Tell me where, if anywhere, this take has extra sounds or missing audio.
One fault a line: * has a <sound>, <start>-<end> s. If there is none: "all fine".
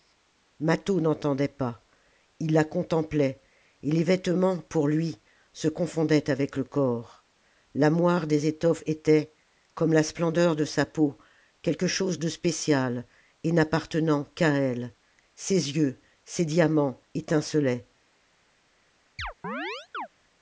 * has a chirp, 19.2-20.1 s